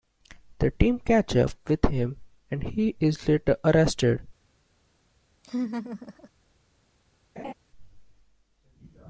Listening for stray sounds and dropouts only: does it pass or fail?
fail